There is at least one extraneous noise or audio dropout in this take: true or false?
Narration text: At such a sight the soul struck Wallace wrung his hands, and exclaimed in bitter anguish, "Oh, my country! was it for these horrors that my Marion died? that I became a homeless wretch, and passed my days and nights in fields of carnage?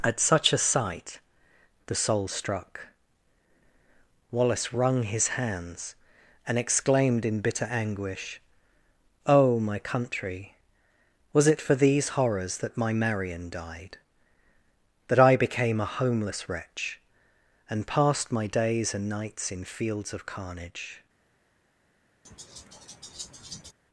true